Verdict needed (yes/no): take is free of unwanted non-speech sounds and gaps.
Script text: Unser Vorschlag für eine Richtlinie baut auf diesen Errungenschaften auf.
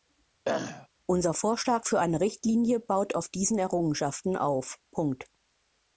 no